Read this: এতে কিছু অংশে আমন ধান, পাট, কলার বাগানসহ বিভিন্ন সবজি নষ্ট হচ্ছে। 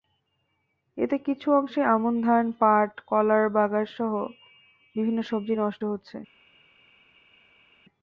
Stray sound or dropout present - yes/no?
no